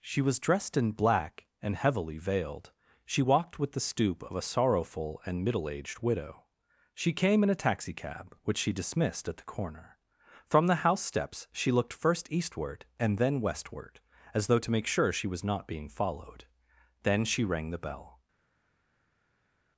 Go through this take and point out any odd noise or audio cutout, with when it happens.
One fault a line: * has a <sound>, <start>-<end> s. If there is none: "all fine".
all fine